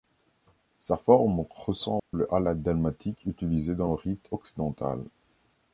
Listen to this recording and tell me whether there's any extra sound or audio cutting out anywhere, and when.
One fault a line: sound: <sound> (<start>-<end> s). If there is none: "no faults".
sound: dropout (2.0-2.1 s)